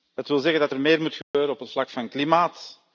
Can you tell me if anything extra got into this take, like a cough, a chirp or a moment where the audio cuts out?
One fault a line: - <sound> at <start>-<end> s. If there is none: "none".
- dropout at 1.2-1.3 s